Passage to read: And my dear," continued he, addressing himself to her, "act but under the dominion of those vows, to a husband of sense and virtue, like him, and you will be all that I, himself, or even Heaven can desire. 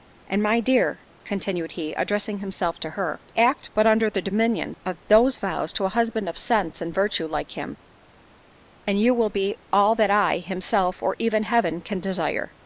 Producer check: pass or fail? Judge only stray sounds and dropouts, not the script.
pass